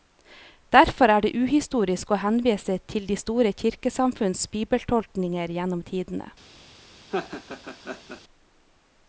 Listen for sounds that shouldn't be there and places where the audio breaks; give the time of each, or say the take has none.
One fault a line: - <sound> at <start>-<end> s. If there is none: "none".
- laugh at 7.1-8.2 s